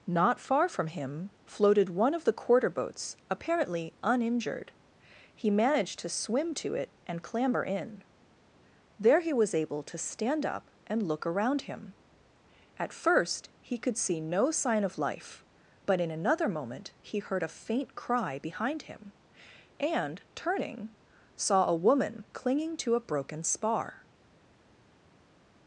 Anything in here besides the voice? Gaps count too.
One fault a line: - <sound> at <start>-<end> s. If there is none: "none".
none